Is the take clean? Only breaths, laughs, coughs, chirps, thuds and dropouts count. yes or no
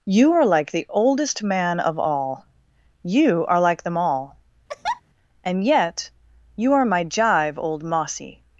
no